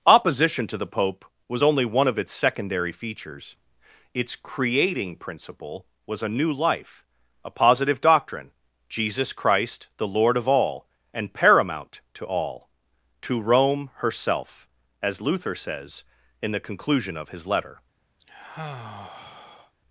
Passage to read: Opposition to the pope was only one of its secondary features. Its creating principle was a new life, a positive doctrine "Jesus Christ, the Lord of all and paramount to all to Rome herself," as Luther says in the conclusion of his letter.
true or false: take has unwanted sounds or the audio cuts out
true